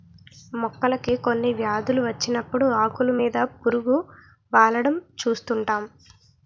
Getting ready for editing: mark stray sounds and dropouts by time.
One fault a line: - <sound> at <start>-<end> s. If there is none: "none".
none